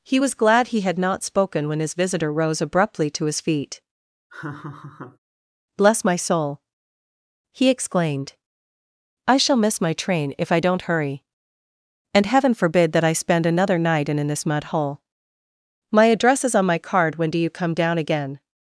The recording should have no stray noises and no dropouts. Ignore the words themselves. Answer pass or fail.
fail